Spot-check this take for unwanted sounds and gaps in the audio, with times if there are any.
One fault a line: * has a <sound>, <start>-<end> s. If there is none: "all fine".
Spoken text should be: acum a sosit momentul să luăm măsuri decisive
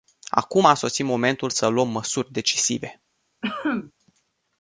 * has a cough, 3.4-3.9 s